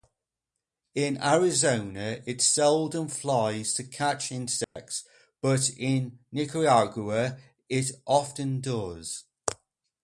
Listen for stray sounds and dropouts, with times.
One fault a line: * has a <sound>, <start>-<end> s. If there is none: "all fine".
* has a dropout, 4.6-4.8 s